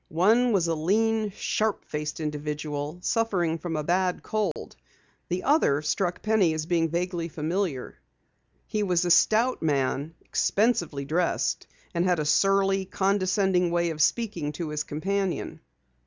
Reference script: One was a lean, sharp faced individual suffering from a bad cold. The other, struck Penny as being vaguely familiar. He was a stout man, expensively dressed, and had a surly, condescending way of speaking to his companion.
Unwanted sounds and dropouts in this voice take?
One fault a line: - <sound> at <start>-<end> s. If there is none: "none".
- dropout at 4.5-4.6 s